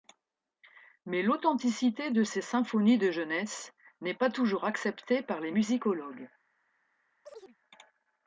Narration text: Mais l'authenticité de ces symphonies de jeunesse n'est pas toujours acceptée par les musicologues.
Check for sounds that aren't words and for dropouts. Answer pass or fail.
fail